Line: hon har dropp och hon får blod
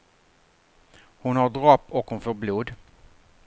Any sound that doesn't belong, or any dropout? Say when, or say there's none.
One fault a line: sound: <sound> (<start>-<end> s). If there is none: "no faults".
no faults